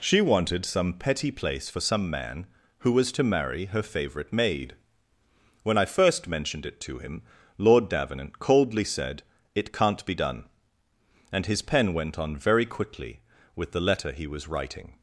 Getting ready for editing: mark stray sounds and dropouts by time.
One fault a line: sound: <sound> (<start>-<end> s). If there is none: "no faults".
no faults